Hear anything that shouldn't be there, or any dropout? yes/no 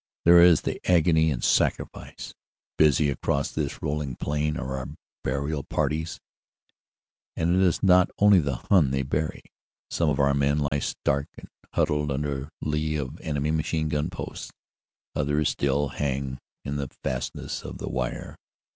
yes